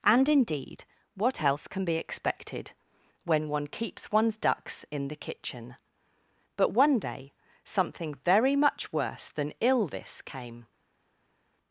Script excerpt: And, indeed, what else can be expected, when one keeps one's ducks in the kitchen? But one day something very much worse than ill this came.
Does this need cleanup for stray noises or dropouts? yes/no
no